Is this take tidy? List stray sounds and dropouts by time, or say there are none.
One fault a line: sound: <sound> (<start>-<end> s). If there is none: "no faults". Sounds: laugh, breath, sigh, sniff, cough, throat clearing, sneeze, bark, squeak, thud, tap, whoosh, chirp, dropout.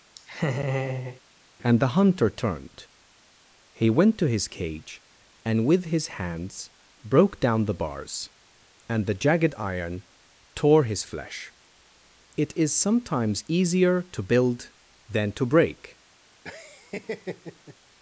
sound: laugh (0.2-1.2 s)
sound: laugh (16.4-17.8 s)